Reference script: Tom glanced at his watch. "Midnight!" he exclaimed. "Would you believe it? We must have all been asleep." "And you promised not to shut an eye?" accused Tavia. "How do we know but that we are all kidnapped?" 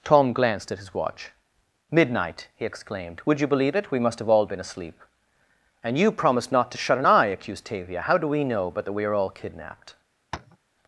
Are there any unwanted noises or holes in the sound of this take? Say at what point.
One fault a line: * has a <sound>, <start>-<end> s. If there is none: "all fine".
* has a tap, 10.3-10.6 s